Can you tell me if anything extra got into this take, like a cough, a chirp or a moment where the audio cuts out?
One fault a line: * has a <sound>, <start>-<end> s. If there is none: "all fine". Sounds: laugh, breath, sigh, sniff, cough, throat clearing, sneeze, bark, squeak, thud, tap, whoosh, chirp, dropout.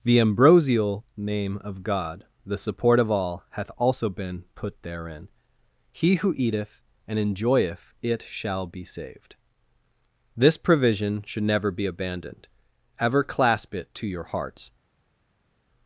all fine